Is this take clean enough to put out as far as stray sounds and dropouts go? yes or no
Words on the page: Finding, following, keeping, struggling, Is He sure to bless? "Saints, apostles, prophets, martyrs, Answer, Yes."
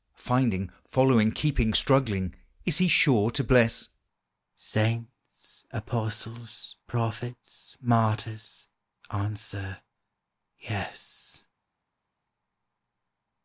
yes